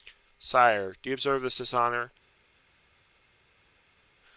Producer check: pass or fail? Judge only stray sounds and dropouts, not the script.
pass